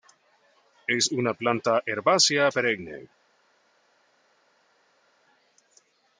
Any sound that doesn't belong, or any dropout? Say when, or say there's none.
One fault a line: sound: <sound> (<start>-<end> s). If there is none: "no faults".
no faults